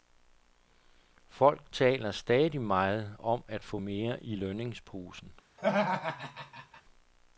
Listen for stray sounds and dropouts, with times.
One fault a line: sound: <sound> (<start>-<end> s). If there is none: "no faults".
sound: laugh (5.6-6.8 s)